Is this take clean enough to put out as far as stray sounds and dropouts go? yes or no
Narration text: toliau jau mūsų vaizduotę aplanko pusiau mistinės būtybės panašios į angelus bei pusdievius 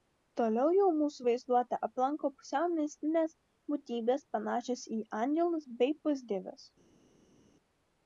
yes